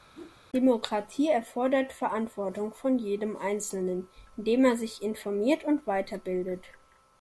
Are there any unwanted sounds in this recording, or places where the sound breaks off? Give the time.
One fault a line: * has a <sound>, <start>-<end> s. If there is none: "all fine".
* has a whoosh, 0.1-0.4 s